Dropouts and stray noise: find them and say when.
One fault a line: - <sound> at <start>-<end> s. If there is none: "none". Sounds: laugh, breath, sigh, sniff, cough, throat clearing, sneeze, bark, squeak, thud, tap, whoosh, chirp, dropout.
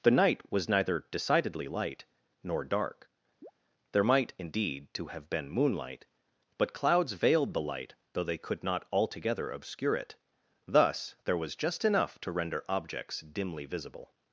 - chirp at 3.4-3.5 s